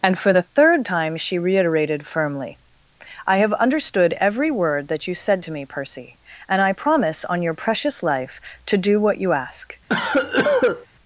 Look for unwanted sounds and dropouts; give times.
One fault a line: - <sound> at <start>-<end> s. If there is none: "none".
- cough at 9.9-10.9 s